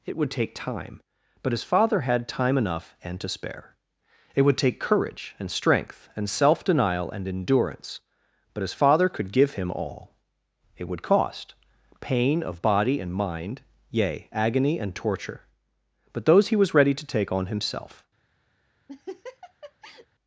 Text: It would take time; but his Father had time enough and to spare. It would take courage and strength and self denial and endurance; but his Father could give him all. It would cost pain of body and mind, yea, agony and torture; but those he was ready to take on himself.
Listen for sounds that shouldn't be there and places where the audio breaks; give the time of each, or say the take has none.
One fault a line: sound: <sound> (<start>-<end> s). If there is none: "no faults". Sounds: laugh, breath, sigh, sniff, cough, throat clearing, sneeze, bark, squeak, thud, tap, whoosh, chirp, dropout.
sound: laugh (18.9-20.1 s)